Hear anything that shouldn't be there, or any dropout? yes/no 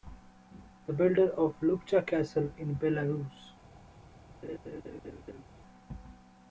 yes